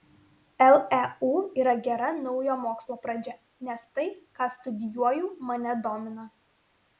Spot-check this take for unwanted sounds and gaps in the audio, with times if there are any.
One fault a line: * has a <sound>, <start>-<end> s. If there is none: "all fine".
all fine